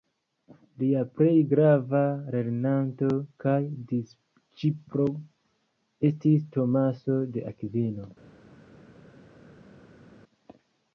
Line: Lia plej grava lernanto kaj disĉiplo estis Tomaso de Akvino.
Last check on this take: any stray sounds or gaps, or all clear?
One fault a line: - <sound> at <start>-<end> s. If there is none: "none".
none